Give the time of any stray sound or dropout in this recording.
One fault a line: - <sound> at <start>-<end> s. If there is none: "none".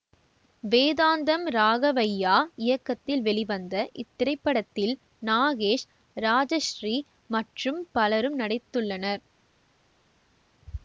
none